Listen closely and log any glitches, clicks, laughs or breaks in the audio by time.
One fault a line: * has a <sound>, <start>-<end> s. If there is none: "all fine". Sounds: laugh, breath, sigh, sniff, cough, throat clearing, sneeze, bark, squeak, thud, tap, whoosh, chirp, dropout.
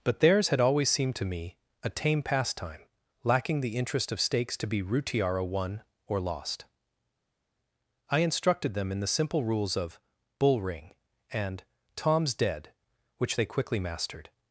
all fine